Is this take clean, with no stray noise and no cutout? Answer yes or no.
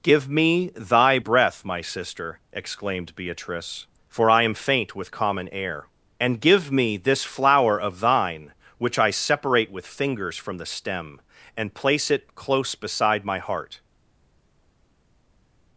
yes